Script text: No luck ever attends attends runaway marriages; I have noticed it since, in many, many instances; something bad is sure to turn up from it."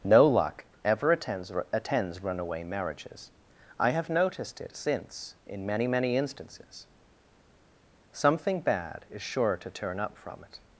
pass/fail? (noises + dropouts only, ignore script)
pass